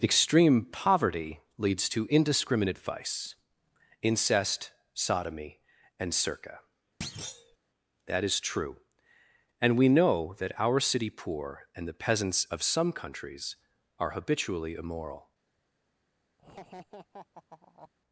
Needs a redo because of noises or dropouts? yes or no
yes